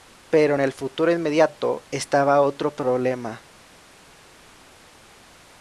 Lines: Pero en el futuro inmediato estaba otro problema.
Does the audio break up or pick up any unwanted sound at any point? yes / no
no